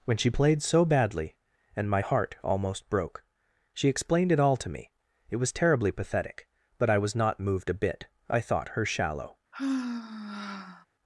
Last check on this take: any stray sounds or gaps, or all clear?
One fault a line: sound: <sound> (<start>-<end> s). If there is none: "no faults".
sound: sigh (9.5-10.9 s)